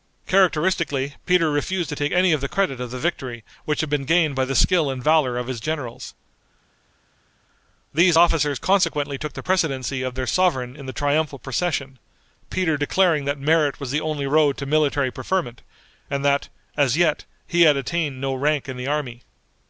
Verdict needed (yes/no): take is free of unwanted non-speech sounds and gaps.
yes